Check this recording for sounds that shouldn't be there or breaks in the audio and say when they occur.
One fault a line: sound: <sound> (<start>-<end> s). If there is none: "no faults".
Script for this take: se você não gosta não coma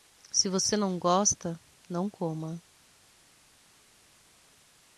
no faults